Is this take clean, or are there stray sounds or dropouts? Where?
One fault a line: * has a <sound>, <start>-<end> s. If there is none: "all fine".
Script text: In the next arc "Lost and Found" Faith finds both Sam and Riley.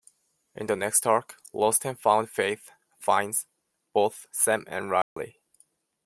* has a dropout, 5.0-5.2 s